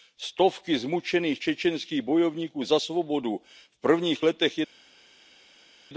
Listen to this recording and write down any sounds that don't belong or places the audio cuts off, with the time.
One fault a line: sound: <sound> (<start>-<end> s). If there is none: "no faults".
no faults